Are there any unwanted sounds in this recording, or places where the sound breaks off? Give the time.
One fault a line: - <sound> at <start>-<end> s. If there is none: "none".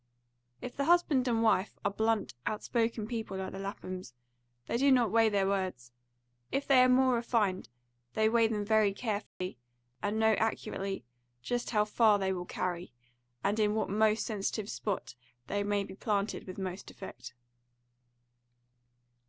- dropout at 9.3-9.4 s